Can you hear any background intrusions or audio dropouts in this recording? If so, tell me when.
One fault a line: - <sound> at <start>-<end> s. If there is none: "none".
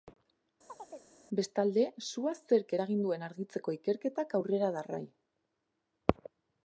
- chirp at 0.7-1.2 s